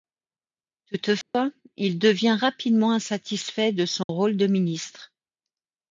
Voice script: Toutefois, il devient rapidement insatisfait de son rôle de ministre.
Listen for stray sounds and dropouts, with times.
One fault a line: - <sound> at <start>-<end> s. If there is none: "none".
- dropout at 1.2-1.3 s
- dropout at 4.0-4.1 s